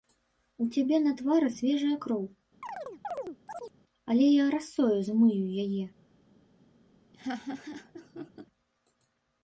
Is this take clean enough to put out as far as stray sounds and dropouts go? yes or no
no